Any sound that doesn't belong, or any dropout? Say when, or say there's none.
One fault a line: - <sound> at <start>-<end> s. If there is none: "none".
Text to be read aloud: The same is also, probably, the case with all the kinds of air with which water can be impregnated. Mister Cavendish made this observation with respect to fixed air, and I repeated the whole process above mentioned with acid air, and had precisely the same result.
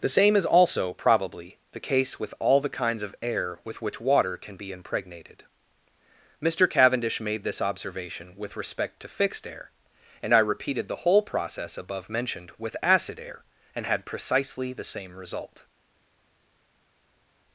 none